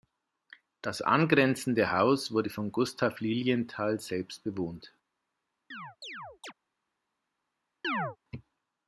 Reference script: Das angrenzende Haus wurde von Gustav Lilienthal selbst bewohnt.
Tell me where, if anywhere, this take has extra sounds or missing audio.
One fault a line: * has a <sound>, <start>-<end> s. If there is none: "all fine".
* has a chirp, 5.7-6.5 s
* has a chirp, 7.8-8.2 s